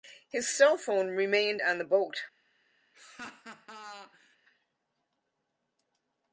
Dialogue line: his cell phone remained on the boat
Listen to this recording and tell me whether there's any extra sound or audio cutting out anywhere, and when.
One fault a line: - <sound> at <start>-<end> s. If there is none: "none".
- laugh at 2.9-4.4 s